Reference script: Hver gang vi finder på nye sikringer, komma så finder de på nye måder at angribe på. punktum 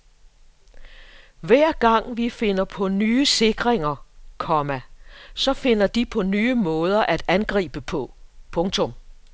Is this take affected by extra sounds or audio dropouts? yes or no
no